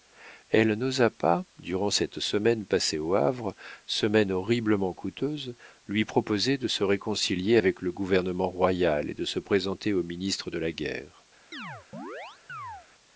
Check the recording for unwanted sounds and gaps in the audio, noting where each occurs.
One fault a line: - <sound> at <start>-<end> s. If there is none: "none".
- chirp at 11.5-12.9 s